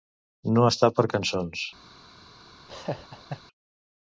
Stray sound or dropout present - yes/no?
yes